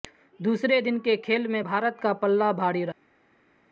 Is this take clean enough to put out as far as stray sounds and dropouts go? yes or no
yes